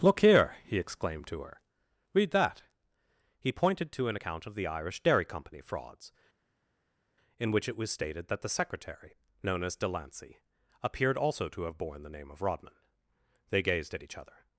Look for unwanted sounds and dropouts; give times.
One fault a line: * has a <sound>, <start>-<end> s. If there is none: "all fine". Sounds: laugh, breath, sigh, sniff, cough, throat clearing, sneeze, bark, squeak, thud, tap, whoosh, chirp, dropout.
all fine